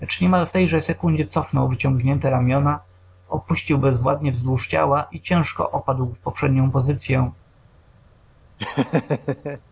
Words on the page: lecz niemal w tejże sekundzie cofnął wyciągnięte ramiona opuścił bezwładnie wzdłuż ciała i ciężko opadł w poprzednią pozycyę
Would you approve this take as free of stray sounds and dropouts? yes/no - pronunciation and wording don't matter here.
no